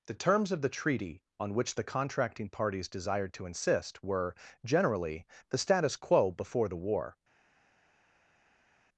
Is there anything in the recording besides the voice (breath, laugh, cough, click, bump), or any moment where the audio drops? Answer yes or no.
no